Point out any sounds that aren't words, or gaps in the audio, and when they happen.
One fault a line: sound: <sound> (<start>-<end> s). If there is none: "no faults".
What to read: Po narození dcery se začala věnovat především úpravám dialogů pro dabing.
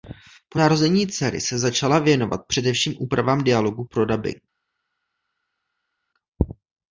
no faults